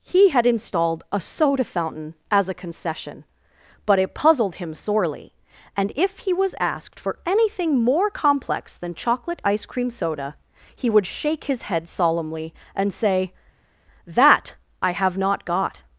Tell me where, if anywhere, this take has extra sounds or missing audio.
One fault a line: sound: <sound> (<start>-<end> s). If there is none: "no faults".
no faults